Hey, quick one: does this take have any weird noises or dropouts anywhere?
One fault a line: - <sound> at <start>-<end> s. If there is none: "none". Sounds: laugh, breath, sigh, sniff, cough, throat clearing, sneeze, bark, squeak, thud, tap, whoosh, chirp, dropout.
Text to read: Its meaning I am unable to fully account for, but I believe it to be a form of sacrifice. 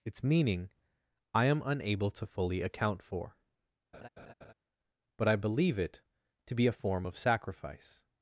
- laugh at 3.9-4.5 s